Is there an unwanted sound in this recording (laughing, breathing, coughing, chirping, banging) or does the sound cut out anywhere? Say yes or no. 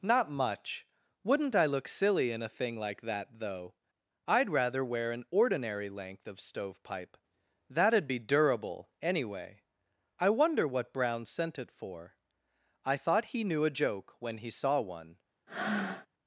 yes